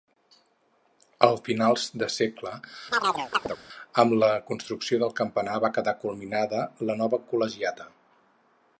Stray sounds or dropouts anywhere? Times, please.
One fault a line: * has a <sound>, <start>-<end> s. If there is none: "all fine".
* has a chirp, 2.9-3.6 s